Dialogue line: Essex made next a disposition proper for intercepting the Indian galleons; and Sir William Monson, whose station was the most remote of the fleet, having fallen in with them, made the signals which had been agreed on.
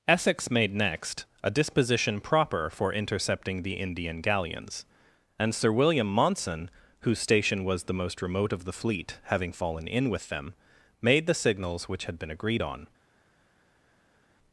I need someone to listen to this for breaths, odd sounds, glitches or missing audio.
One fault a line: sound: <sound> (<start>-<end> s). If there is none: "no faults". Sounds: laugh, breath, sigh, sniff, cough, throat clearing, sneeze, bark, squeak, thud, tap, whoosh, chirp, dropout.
no faults